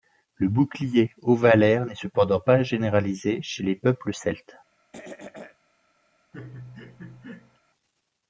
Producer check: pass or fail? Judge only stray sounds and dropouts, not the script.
fail